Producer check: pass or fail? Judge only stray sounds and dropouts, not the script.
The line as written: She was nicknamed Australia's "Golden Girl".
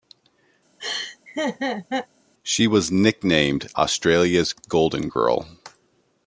fail